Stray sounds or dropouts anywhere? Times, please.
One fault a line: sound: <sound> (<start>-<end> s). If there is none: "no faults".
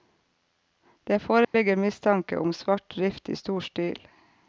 sound: dropout (1.4-1.5 s)